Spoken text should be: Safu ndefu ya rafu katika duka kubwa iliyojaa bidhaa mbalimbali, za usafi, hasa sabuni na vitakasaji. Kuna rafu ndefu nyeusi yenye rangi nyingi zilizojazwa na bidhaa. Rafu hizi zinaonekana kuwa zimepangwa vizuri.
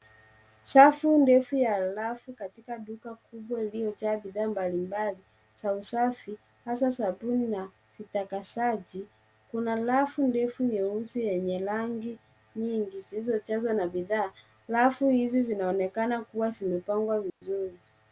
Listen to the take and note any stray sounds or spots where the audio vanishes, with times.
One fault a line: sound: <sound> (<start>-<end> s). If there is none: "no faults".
sound: dropout (17.3-17.4 s)